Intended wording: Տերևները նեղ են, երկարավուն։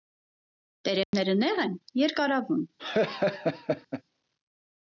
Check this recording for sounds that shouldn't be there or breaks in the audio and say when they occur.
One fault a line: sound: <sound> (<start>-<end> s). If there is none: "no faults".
sound: dropout (1.0-1.1 s)
sound: laugh (2.8-4.0 s)